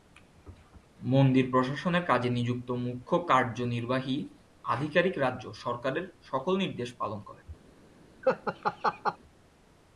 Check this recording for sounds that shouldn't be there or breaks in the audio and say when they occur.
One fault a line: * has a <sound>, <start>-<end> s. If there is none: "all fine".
* has a laugh, 8.2-9.2 s